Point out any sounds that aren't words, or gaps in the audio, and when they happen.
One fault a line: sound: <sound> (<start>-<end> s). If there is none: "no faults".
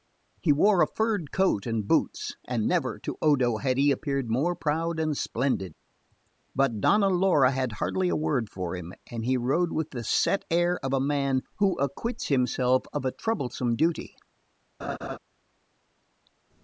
sound: laugh (14.8-15.2 s)